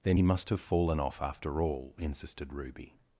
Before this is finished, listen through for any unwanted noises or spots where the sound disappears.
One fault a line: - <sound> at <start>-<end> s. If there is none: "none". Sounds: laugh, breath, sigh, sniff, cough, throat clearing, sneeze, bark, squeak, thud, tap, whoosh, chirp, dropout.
none